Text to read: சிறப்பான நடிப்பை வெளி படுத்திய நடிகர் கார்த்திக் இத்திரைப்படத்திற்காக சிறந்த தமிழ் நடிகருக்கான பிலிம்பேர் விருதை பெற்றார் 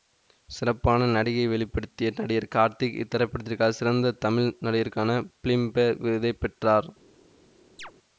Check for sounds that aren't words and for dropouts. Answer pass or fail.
fail